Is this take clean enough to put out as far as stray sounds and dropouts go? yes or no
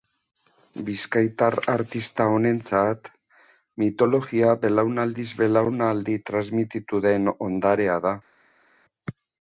yes